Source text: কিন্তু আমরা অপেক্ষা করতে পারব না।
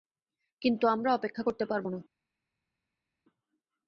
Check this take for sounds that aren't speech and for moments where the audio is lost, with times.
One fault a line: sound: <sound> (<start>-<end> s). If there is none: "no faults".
no faults